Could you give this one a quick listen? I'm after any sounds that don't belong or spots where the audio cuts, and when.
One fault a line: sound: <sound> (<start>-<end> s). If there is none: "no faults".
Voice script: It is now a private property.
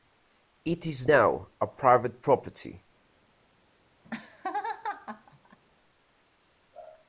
sound: laugh (4.0-5.6 s)